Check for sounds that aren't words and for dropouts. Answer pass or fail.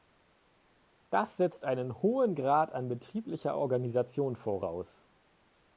pass